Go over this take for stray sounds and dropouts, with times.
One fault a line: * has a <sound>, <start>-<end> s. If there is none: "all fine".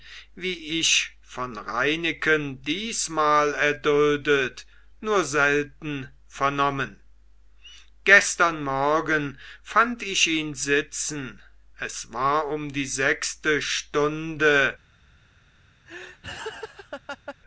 * has a laugh, 15.9-17.4 s